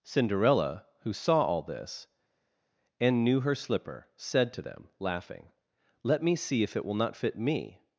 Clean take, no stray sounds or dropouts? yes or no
yes